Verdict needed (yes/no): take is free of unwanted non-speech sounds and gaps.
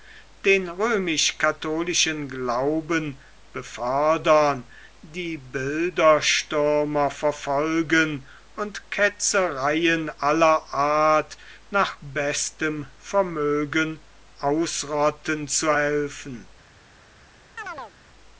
no